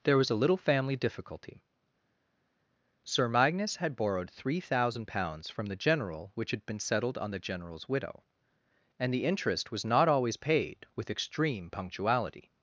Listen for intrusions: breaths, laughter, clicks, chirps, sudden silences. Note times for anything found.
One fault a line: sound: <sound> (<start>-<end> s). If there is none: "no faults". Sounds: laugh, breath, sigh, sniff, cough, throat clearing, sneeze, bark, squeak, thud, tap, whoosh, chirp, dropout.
no faults